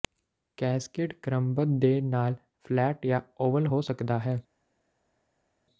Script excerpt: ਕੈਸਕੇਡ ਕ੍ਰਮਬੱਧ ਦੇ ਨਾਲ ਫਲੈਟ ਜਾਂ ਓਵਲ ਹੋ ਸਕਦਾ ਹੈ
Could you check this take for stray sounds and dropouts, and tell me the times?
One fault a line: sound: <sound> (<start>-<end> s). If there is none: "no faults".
no faults